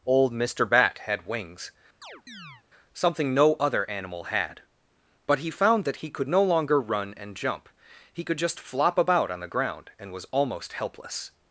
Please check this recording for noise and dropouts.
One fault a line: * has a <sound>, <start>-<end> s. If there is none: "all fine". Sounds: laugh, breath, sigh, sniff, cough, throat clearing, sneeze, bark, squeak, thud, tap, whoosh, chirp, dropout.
* has a chirp, 2.0-2.6 s